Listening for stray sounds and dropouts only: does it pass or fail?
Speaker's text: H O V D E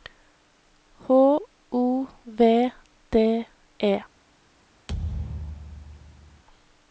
fail